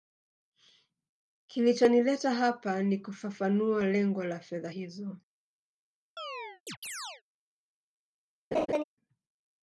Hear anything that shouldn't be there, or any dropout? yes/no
yes